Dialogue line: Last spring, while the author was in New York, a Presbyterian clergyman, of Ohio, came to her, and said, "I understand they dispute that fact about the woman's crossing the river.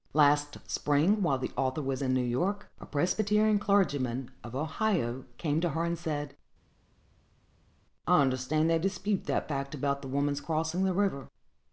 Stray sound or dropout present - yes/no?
no